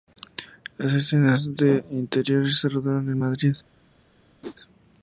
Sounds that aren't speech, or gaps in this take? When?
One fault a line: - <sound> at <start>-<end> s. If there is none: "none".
- whoosh at 4.4-4.6 s